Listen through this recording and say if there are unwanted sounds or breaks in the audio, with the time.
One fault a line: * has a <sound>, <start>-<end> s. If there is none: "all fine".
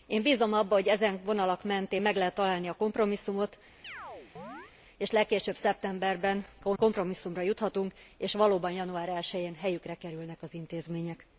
* has a chirp, 3.8-4.7 s